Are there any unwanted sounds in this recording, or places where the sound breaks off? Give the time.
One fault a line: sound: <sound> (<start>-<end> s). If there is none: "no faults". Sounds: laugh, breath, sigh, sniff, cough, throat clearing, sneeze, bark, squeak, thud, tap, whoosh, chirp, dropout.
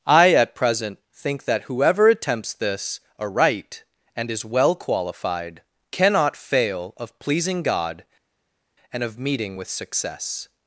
no faults